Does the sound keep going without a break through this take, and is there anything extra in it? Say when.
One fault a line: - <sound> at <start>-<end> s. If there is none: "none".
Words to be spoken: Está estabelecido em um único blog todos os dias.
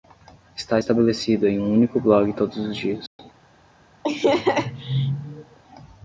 - dropout at 3.1-3.2 s
- laugh at 4.0-5.6 s